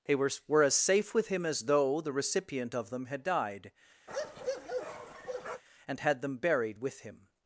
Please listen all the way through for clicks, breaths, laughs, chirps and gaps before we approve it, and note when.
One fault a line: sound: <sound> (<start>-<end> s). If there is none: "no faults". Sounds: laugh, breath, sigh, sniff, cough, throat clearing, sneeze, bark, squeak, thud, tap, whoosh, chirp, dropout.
sound: bark (4.1-5.6 s)